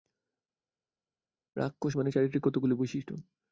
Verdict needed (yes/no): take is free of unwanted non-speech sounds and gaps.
yes